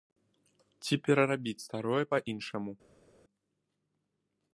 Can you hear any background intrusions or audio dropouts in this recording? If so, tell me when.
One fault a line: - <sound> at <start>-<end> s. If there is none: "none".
none